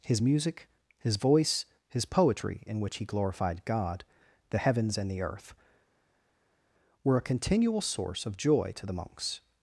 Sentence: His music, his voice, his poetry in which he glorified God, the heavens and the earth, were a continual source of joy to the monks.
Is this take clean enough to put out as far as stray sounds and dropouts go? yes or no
yes